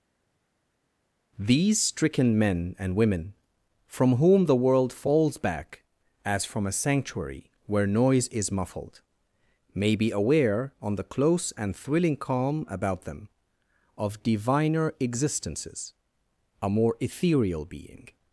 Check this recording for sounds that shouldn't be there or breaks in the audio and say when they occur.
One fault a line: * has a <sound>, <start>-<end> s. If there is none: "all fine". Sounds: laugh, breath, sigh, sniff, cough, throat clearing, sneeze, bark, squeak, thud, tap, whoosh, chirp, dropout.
all fine